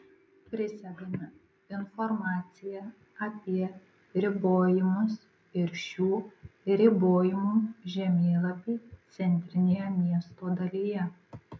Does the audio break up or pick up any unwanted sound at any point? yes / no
no